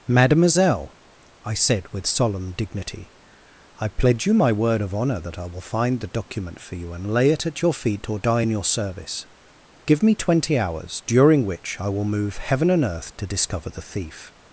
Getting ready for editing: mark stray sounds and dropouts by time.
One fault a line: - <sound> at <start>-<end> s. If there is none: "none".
none